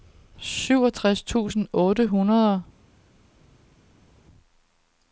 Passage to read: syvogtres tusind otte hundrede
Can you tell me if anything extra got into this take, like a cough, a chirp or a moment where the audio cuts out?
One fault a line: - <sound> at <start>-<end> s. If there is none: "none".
none